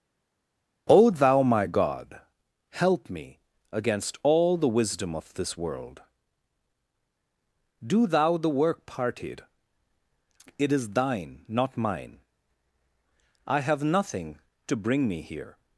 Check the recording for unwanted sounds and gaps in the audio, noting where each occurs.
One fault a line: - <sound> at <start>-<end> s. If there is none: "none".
none